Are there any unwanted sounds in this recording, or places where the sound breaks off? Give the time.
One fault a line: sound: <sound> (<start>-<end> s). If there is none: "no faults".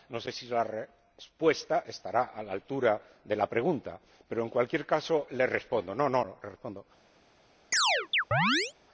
sound: chirp (7.7-8.7 s)